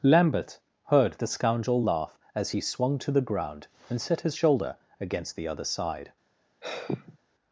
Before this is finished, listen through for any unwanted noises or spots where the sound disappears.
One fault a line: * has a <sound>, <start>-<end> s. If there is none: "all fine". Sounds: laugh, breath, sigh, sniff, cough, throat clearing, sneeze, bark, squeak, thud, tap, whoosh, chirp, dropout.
* has a sigh, 6.6-7.2 s